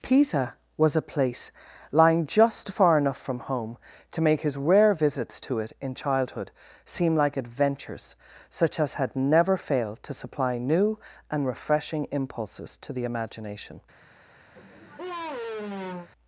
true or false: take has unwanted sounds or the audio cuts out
true